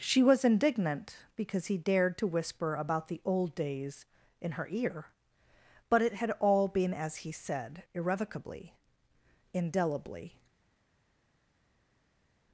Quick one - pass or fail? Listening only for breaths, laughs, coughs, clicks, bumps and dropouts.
pass